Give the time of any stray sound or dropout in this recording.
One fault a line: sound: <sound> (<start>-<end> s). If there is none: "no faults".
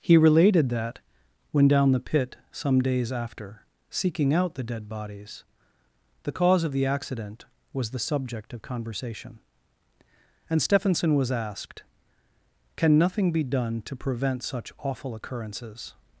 no faults